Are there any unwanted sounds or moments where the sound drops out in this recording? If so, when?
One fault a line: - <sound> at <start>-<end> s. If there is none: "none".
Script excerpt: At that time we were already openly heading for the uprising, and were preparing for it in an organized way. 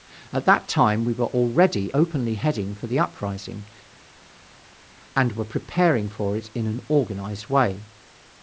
none